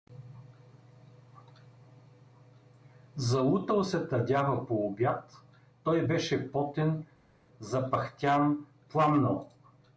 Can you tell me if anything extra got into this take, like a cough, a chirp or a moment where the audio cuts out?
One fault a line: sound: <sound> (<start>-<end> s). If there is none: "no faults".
no faults